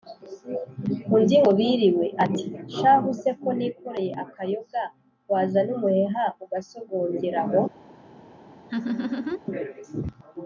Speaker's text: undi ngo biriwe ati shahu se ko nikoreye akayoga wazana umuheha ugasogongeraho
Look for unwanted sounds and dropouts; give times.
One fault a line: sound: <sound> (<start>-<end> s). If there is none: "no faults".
sound: laugh (8.7-9.4 s)